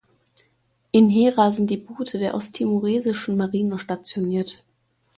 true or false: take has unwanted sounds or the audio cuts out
false